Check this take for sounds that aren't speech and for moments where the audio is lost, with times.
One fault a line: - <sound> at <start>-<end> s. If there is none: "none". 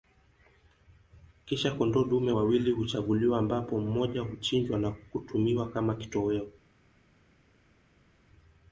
none